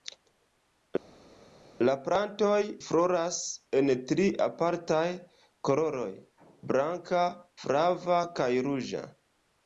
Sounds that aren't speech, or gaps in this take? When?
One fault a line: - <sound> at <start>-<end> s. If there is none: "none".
none